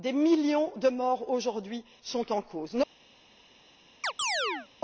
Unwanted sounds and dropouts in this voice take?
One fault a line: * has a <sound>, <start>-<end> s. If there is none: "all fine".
* has a chirp, 4.0-4.7 s